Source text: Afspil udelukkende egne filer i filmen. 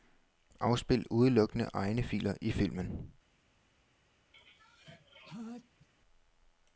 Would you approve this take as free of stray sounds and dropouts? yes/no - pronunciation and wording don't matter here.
no